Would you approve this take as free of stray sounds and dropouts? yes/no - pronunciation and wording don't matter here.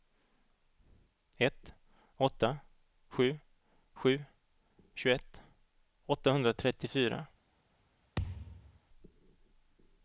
no